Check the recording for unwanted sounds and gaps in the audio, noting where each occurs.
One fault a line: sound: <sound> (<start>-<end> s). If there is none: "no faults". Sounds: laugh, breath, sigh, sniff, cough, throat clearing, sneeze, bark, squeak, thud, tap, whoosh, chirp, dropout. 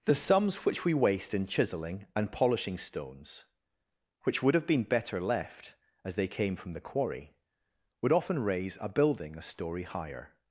no faults